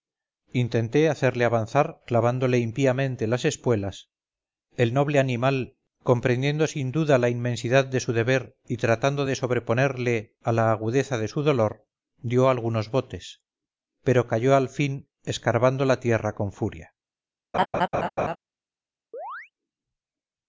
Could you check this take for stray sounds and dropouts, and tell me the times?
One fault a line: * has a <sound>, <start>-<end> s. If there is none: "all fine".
* has a laugh, 17.5-18.4 s
* has a chirp, 19.1-19.5 s